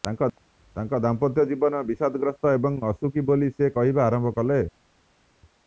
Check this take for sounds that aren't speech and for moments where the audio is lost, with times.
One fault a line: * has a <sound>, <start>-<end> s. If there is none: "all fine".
all fine